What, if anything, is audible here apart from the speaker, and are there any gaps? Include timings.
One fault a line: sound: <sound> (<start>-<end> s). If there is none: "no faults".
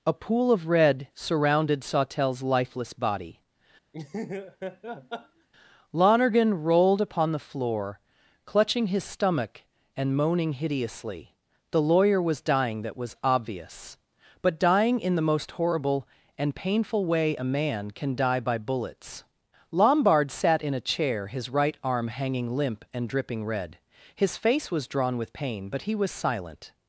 sound: laugh (3.9-5.5 s)